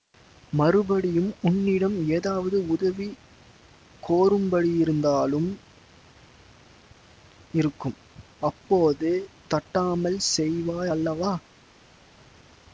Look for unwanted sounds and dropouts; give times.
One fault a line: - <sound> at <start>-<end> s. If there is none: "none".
none